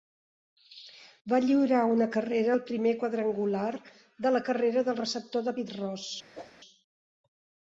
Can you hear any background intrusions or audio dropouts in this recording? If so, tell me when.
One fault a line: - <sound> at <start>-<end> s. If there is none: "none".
- whoosh at 6.3-6.5 s